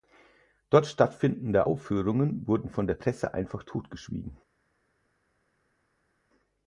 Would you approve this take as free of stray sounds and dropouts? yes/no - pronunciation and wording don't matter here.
yes